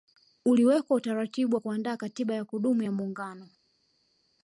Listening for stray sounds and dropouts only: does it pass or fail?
pass